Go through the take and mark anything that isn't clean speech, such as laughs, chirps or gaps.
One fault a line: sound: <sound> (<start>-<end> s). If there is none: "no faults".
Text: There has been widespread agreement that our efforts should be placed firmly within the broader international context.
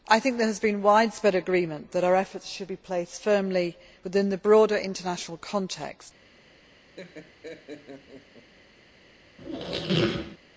sound: laugh (7.0-8.5 s)
sound: squeak (9.4-10.4 s)